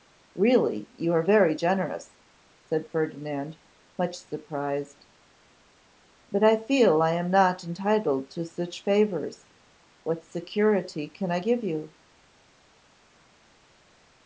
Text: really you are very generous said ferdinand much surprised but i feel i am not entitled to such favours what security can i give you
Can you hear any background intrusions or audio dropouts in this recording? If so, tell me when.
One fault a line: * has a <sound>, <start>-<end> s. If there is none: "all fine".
all fine